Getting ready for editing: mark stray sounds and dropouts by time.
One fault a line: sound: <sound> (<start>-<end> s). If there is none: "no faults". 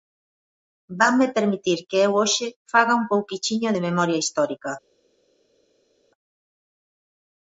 no faults